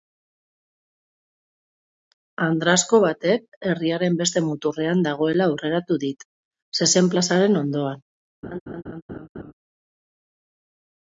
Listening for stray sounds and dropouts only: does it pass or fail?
fail